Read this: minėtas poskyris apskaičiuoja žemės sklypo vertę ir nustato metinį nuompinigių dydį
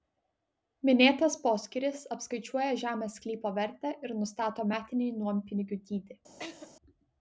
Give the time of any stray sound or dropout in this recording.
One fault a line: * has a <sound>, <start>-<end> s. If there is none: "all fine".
* has a laugh, 6.4-6.7 s